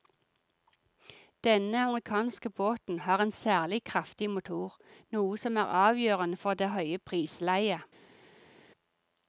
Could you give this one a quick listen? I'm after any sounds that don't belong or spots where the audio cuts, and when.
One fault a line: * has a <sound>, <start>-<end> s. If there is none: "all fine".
all fine